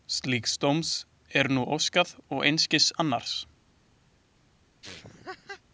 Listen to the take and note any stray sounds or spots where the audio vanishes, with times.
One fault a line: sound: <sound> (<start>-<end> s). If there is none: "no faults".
sound: laugh (4.8-5.6 s)